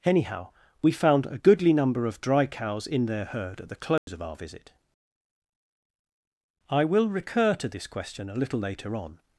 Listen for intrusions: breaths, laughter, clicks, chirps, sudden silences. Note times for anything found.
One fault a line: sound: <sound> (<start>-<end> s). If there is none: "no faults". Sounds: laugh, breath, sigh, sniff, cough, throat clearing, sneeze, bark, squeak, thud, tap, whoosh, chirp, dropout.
sound: dropout (4.0-4.1 s)